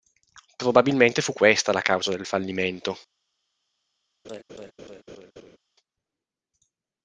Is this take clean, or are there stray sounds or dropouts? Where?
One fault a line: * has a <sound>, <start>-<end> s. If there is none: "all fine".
* has a laugh, 4.2-5.6 s